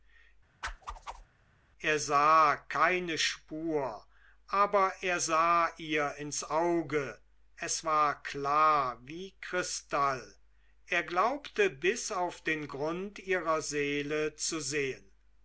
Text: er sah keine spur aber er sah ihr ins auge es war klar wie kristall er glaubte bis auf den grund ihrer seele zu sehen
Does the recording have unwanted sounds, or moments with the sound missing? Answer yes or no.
yes